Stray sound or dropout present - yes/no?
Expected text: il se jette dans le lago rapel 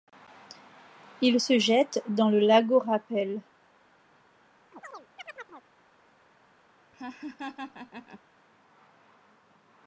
yes